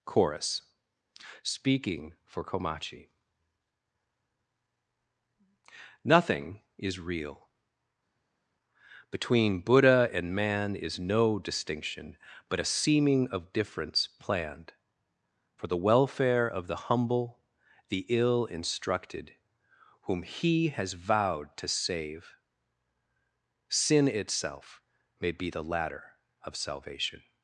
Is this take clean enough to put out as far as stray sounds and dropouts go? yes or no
yes